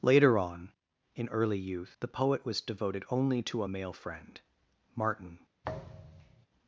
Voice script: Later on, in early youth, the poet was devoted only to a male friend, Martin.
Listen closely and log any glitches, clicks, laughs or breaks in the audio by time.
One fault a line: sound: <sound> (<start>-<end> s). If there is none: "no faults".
sound: thud (5.6-6.5 s)